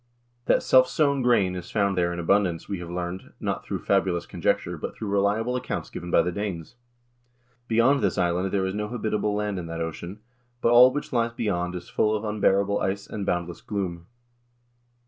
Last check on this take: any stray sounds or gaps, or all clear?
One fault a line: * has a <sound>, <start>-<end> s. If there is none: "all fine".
all fine